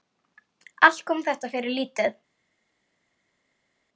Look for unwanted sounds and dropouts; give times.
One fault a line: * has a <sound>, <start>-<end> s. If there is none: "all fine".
all fine